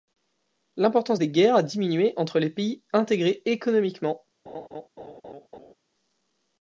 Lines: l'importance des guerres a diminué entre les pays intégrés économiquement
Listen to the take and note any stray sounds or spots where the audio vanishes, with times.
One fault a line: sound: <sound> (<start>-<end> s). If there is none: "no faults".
sound: laugh (4.5-5.7 s)